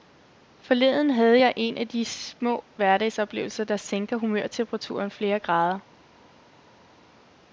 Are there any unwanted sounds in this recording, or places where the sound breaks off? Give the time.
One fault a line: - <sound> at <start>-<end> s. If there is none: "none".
none